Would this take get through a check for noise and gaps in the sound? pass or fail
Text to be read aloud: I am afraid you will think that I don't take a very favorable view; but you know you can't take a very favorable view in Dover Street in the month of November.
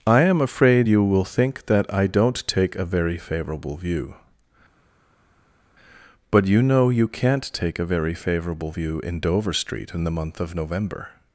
pass